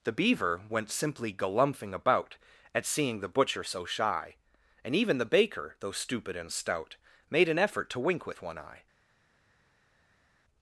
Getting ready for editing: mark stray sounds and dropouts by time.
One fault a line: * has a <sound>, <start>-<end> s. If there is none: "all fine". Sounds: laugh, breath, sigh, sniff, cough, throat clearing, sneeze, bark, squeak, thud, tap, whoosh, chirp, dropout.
all fine